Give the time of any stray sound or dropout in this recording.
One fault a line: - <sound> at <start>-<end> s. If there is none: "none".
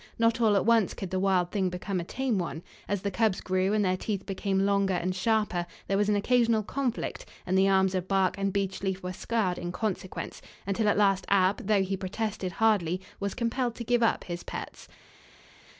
none